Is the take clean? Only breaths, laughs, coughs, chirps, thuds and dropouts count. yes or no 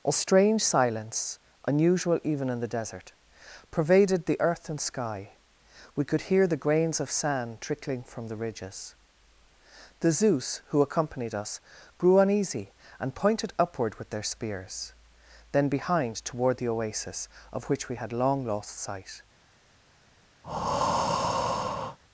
no